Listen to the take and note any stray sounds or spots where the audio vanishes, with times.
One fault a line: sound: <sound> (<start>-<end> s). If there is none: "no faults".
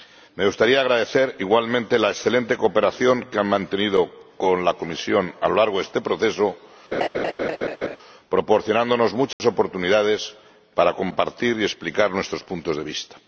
sound: laugh (6.9-8.0 s)
sound: dropout (9.3-9.4 s)